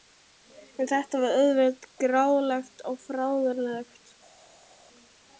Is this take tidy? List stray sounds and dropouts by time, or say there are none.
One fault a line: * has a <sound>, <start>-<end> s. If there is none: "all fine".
all fine